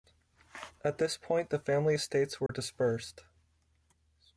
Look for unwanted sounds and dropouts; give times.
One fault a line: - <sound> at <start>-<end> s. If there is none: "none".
- dropout at 2.5-2.5 s